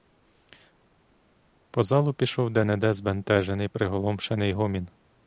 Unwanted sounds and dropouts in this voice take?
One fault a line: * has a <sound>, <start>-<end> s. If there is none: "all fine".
all fine